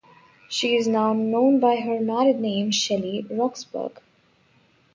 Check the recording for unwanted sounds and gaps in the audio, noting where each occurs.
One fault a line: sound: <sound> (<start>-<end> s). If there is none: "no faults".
no faults